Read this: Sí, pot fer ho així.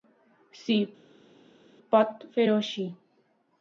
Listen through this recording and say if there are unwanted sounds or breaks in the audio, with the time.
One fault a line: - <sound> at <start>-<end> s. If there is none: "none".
none